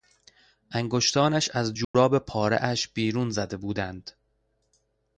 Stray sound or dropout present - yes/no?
yes